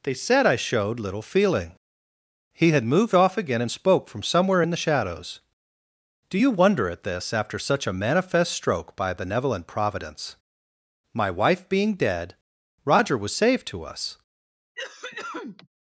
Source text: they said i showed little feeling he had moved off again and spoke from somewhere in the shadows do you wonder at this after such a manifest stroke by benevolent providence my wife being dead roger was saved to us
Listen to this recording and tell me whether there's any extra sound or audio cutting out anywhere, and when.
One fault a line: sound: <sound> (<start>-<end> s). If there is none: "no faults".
sound: cough (14.7-15.7 s)